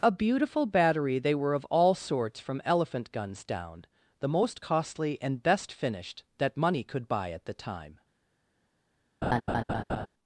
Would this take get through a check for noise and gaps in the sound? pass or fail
fail